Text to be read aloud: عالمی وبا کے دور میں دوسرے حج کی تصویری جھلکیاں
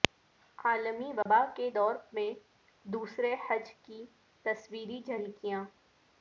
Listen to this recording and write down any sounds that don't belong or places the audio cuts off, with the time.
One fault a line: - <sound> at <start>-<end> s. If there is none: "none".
- dropout at 1.2-1.3 s